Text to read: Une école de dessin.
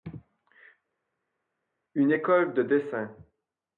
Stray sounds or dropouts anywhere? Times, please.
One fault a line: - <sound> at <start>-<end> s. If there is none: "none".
none